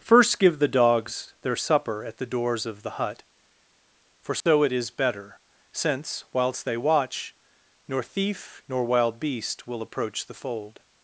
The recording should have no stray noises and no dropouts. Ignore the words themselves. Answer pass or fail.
fail